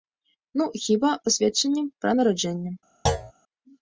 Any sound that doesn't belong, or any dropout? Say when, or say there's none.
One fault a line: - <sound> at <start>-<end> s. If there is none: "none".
- thud at 3.1-3.3 s